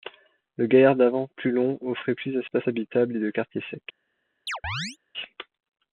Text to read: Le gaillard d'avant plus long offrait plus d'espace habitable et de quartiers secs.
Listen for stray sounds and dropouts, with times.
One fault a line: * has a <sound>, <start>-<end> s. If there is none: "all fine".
* has a chirp, 4.5-5.0 s